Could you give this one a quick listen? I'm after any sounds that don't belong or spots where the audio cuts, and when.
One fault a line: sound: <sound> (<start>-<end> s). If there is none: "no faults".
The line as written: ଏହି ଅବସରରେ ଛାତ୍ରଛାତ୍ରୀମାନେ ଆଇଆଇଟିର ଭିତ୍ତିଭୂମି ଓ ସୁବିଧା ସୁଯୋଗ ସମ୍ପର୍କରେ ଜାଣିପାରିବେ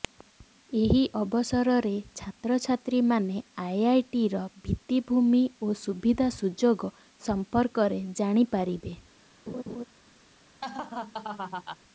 sound: laugh (9.5-9.8 s)
sound: laugh (10.6-11.8 s)